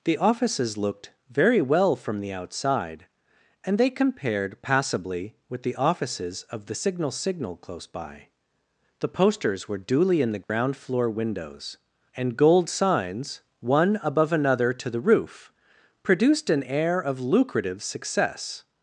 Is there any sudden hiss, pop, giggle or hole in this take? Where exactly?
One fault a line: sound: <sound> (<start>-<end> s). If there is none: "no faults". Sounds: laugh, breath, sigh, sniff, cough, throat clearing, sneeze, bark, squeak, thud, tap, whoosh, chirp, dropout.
sound: dropout (10.4-10.5 s)